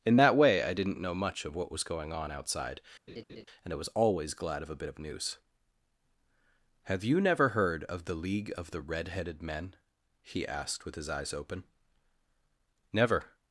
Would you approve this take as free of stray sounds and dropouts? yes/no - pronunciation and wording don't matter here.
no